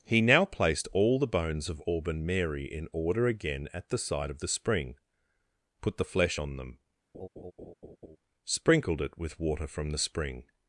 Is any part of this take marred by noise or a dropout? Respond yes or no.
yes